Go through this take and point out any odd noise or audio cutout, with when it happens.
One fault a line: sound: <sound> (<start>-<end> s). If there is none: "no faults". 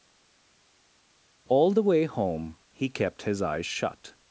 no faults